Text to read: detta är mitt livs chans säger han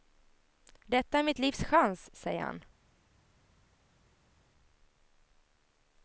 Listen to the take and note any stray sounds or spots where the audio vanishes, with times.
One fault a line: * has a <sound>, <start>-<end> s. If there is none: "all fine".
all fine